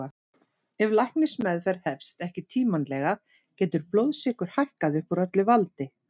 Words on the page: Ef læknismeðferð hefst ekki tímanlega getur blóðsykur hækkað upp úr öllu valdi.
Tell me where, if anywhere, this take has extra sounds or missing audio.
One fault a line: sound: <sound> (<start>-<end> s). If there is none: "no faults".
no faults